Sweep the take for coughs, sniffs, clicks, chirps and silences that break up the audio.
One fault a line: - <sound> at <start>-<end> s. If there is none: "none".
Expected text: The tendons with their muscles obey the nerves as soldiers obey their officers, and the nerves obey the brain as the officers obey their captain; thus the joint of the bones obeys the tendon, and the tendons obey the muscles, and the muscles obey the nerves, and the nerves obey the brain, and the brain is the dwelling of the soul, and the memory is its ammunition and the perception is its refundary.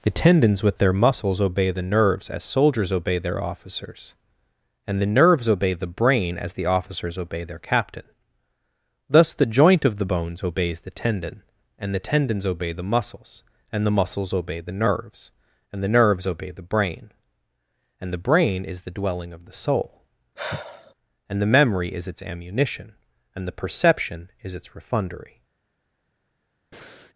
- sigh at 20.4-20.9 s
- breath at 26.7-27.1 s